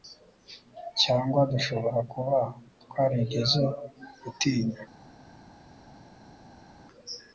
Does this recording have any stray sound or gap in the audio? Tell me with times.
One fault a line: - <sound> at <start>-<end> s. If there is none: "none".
none